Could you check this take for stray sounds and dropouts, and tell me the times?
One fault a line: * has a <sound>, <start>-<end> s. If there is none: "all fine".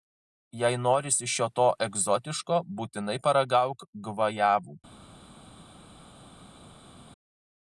all fine